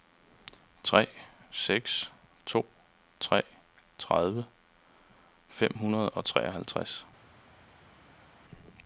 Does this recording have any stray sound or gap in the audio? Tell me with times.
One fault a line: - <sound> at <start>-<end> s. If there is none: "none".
none